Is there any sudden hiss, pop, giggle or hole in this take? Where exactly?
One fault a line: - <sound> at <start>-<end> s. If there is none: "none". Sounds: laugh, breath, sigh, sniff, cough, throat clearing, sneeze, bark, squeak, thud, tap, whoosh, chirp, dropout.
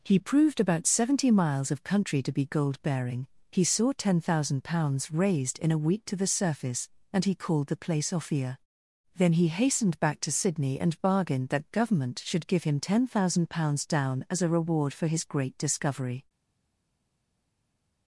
none